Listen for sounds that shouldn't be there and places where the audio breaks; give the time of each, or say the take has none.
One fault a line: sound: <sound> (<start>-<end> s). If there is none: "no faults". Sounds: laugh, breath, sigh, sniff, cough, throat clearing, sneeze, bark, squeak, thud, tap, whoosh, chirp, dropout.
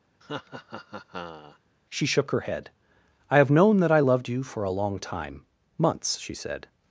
sound: laugh (0.2-1.6 s)